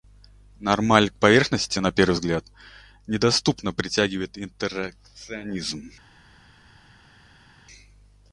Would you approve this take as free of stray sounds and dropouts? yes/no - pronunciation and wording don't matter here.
yes